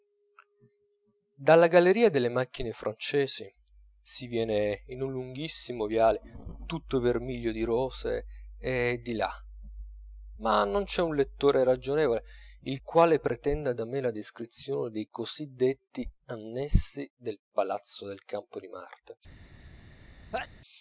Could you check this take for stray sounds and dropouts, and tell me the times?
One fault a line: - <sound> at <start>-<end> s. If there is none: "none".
- sneeze at 20.3-20.5 s